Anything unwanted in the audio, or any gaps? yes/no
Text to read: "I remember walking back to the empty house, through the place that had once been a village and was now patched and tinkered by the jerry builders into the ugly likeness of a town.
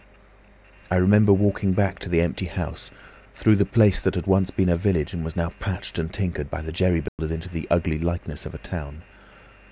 yes